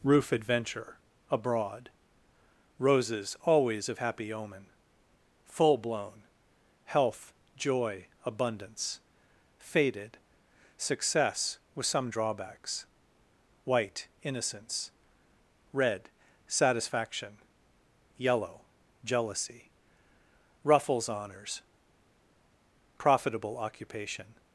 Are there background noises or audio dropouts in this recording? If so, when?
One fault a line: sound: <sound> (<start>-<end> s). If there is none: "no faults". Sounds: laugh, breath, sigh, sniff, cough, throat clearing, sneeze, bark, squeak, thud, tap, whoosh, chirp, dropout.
no faults